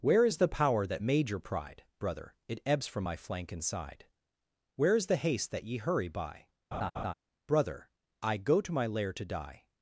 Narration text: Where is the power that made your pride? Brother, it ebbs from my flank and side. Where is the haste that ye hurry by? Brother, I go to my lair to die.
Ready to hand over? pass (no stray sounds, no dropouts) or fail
fail